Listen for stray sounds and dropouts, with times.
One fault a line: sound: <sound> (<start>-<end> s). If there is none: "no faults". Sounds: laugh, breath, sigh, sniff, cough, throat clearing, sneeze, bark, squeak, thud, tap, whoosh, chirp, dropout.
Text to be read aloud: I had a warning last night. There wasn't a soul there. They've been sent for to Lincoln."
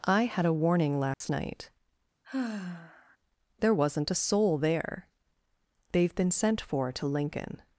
sound: dropout (1.1-1.2 s)
sound: sigh (2.2-3.2 s)